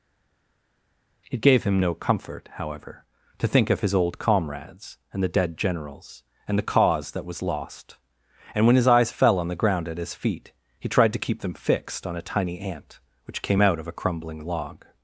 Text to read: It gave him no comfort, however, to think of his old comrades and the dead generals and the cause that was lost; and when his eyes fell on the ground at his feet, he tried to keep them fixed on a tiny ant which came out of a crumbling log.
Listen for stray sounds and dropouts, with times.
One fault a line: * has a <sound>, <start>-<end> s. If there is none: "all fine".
all fine